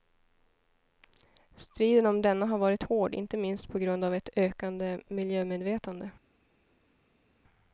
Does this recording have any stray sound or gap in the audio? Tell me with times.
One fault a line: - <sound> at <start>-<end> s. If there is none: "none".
none